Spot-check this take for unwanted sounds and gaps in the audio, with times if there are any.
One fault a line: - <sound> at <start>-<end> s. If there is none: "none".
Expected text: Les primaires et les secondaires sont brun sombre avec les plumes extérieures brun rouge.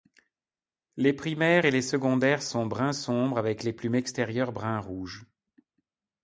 none